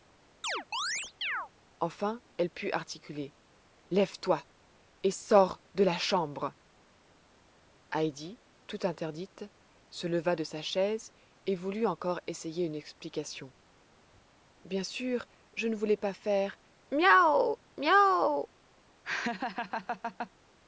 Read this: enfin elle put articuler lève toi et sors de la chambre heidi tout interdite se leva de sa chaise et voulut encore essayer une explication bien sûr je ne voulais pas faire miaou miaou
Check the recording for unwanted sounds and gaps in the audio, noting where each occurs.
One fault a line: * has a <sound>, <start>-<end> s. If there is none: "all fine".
* has a chirp, 0.4-1.5 s
* has a laugh, 19.0-20.3 s